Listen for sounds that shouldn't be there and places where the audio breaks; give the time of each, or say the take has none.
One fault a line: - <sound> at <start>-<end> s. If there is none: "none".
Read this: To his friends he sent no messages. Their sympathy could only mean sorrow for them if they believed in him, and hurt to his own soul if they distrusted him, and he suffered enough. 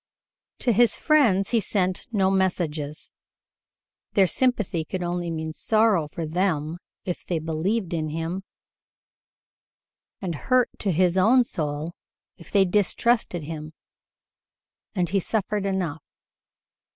none